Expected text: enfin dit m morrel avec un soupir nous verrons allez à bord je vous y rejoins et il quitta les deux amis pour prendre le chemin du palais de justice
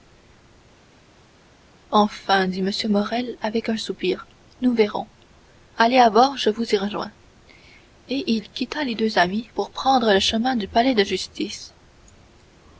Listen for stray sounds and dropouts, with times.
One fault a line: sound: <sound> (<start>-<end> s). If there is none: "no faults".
no faults